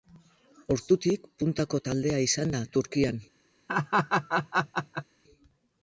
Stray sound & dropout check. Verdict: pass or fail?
fail